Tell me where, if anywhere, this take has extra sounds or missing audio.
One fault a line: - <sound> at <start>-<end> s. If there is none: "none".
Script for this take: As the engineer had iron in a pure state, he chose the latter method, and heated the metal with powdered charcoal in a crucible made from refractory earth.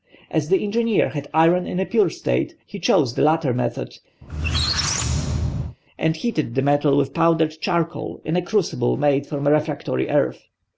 - squeak at 4.2-5.8 s